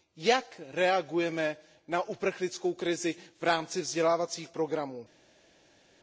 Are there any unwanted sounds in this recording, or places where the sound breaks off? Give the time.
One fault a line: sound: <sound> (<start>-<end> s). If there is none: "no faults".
no faults